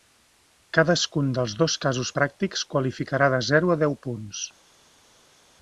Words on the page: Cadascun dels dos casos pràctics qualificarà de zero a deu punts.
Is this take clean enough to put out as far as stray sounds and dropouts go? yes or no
yes